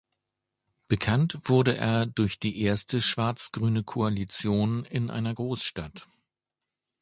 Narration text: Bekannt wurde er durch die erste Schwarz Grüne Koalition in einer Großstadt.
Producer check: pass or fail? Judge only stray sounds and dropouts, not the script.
pass